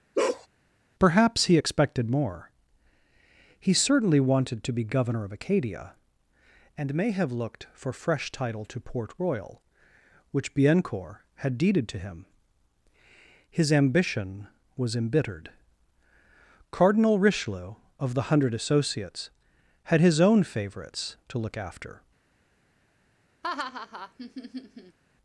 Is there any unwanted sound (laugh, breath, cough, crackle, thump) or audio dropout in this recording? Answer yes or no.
yes